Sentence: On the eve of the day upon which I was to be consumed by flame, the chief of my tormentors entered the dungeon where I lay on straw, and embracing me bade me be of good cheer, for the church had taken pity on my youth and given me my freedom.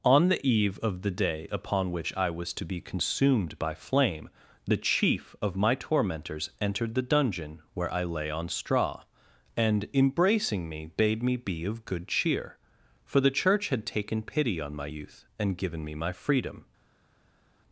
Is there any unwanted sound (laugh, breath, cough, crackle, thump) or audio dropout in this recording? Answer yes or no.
no